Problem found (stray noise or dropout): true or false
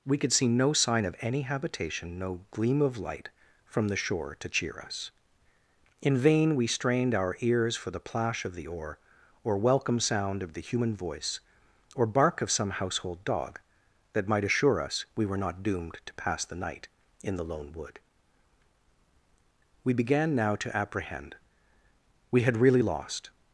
false